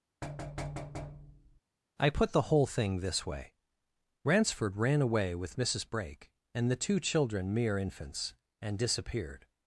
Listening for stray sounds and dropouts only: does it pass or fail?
fail